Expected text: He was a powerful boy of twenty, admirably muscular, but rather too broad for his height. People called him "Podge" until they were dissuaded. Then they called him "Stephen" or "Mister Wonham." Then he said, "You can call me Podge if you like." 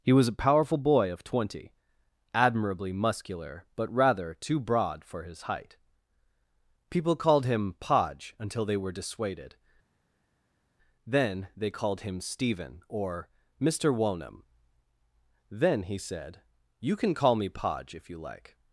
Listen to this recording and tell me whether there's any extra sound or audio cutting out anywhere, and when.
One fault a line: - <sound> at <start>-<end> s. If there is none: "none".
none